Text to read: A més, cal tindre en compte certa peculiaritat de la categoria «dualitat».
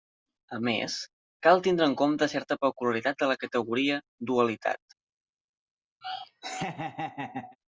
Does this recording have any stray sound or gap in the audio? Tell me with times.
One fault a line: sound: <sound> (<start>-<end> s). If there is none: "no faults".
sound: laugh (6.0-7.6 s)